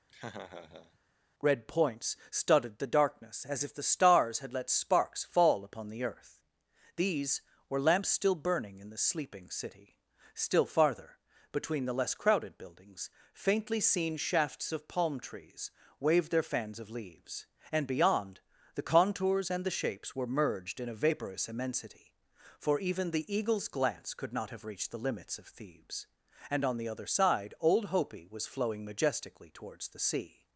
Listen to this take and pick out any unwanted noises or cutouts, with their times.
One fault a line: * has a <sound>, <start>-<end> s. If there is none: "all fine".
* has a laugh, 0.1-1.0 s